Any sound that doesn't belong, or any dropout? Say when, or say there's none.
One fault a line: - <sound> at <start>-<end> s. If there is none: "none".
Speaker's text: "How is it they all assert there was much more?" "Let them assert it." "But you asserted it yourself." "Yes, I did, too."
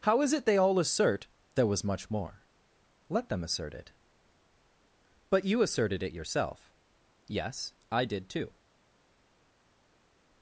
none